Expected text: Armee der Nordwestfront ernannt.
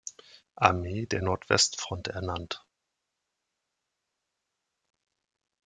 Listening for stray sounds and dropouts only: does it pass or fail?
pass